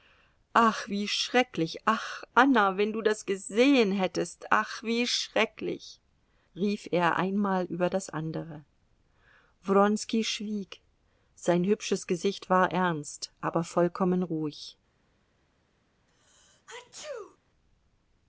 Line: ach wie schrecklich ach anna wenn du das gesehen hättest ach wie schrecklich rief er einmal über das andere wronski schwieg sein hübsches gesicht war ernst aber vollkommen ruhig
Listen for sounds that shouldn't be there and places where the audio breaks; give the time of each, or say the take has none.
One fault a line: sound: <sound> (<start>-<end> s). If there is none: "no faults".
sound: sneeze (16.1-17.4 s)